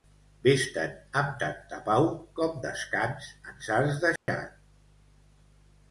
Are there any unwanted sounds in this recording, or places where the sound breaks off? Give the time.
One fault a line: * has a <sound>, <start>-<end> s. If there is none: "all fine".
* has a dropout, 4.2-4.3 s